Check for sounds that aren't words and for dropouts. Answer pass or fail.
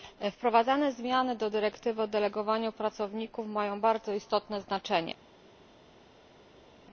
pass